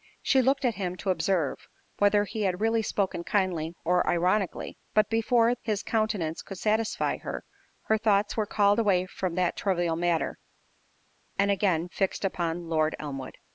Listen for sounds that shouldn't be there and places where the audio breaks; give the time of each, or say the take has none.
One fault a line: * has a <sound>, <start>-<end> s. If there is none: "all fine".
all fine